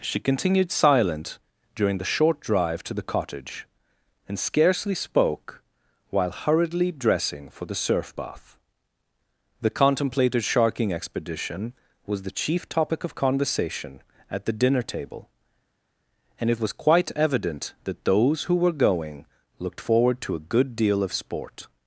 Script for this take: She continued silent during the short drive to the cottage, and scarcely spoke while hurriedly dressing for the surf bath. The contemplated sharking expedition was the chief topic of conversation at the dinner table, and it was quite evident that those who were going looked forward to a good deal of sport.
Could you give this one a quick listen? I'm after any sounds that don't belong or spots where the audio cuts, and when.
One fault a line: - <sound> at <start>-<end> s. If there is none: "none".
none